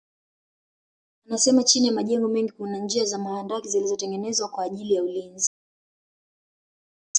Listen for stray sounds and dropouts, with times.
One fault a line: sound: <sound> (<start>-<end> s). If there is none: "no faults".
no faults